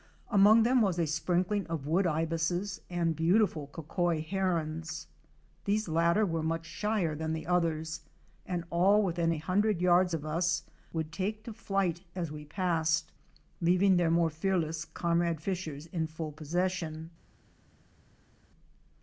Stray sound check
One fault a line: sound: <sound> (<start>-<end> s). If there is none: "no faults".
no faults